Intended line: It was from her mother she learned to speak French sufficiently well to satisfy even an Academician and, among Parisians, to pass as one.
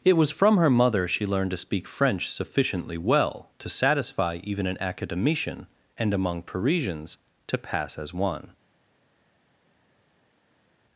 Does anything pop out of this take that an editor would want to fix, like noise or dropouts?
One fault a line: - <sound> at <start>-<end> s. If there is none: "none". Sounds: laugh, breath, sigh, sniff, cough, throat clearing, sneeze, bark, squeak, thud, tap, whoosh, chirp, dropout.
none